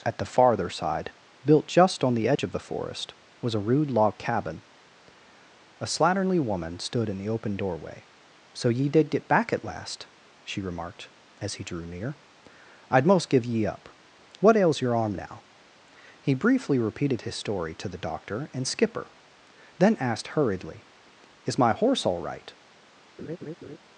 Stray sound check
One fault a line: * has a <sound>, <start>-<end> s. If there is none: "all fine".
* has a dropout, 2.4-2.4 s
* has a laugh, 23.2-23.8 s